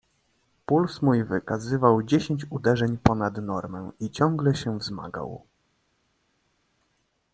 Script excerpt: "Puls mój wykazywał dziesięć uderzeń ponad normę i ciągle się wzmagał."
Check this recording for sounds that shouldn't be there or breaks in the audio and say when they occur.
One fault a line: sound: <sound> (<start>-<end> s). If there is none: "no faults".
no faults